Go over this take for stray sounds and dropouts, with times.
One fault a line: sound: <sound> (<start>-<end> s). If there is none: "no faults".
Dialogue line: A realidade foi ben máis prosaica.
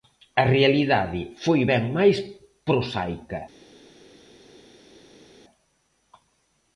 no faults